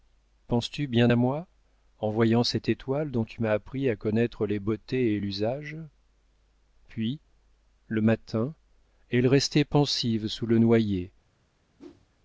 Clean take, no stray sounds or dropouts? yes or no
no